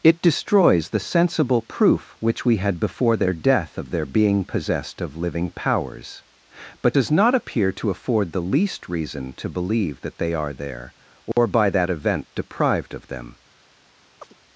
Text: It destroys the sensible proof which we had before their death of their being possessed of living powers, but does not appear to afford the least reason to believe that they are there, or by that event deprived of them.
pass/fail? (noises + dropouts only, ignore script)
fail